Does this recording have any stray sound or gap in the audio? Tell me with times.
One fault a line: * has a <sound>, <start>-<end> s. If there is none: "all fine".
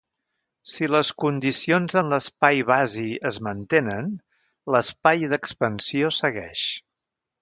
all fine